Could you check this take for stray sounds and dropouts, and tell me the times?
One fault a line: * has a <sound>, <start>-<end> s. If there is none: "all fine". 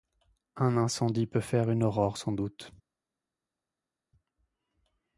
all fine